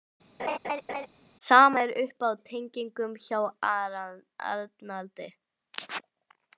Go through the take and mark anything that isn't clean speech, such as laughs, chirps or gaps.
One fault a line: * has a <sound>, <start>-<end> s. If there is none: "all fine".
* has a laugh, 0.4-1.1 s